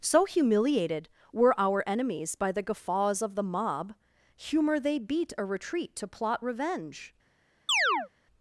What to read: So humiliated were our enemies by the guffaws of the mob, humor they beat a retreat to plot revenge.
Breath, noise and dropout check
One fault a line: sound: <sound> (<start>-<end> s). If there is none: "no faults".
sound: chirp (7.7-8.1 s)